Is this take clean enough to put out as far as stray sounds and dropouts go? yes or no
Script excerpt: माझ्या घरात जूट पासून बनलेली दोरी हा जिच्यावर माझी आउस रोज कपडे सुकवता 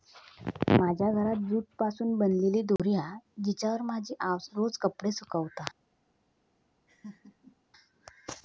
no